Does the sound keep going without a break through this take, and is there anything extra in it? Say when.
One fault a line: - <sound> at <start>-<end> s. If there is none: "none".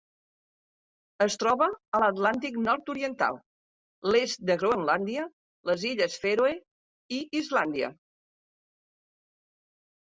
none